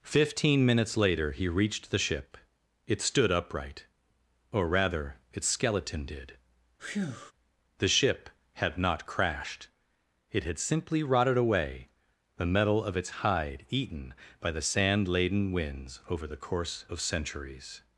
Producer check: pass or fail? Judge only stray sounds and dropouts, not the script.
fail